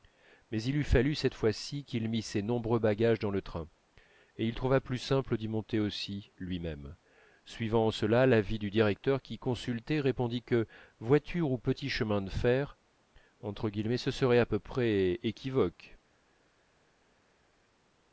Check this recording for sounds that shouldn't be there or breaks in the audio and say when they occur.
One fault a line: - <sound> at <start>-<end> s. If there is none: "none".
none